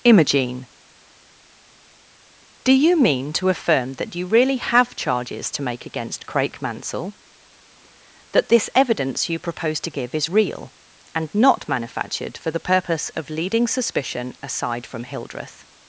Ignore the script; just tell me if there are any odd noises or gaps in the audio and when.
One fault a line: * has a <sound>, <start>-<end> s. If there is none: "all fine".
all fine